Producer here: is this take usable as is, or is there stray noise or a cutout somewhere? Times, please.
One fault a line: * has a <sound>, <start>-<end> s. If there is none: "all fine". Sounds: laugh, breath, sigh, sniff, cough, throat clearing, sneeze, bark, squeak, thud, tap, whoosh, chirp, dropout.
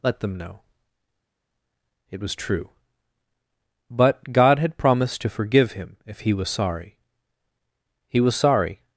all fine